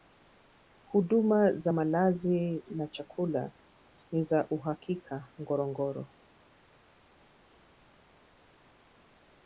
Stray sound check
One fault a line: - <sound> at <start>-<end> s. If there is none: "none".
none